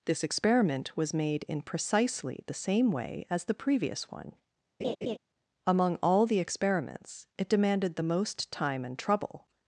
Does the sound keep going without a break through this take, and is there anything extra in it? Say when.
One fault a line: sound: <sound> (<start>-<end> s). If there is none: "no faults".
sound: laugh (4.8-5.2 s)